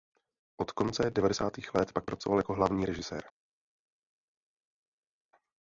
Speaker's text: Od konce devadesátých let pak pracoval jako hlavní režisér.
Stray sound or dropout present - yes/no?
no